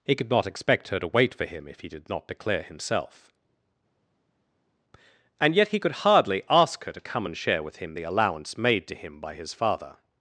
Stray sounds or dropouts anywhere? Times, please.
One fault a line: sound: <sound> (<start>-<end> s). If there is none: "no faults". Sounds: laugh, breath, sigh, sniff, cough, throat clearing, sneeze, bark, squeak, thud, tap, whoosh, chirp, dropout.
no faults